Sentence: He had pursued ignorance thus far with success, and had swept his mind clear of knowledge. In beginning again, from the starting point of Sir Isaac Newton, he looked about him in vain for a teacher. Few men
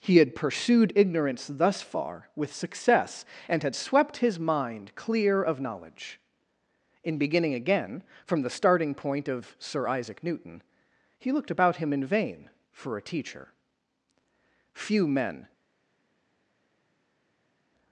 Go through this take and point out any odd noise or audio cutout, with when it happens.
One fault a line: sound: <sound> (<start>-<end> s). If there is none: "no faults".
no faults